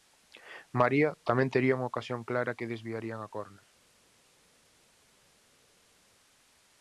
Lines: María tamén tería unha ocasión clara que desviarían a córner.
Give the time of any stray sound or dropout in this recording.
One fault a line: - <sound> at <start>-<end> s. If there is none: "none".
none